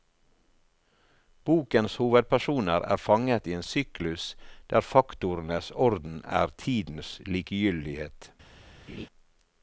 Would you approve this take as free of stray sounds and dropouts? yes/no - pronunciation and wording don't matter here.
no